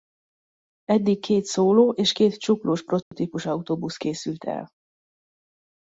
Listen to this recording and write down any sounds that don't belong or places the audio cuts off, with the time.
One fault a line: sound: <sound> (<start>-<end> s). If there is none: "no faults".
sound: dropout (3.0-3.1 s)